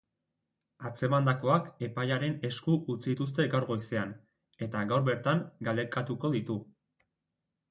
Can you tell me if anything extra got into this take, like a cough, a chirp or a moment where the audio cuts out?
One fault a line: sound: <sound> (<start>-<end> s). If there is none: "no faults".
no faults